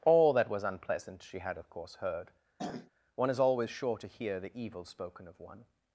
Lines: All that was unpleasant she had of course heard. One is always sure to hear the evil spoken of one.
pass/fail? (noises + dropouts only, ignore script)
fail